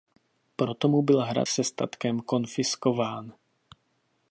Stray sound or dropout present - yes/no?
no